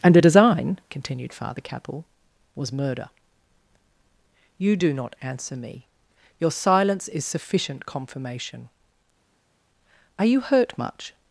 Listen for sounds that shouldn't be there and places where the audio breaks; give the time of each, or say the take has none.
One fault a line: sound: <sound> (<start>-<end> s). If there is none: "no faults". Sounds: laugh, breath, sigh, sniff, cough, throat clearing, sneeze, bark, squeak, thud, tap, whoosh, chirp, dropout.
no faults